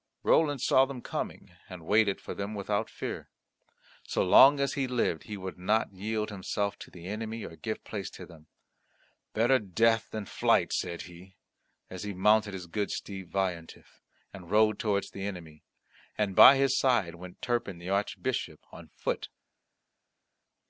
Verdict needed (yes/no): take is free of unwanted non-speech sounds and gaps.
yes